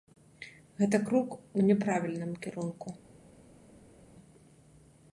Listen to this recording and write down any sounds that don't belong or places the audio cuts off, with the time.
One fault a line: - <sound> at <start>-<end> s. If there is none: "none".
none